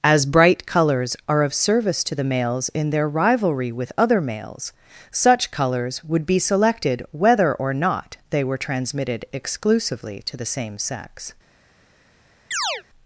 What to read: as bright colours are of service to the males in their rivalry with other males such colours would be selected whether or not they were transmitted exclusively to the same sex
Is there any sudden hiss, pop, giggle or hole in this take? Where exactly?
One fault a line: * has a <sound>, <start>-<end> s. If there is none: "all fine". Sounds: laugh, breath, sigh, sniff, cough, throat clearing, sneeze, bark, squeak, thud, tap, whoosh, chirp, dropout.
* has a chirp, 12.5-12.8 s